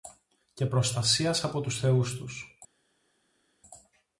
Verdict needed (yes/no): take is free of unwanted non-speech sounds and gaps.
yes